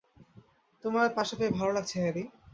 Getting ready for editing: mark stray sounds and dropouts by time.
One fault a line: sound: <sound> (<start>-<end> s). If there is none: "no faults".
no faults